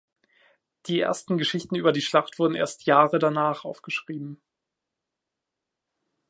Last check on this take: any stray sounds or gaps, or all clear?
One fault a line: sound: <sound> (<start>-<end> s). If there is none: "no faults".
no faults